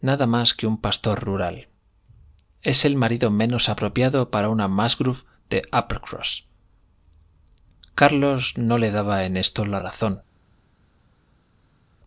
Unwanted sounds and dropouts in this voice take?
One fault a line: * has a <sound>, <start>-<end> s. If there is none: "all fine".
all fine